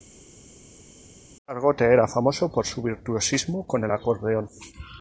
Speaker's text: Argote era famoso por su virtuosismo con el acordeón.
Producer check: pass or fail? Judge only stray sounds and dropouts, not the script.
pass